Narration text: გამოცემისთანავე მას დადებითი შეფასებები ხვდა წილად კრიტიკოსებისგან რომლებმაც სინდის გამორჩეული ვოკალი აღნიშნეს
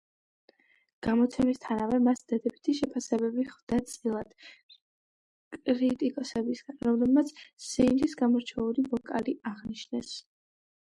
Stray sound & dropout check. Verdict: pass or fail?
pass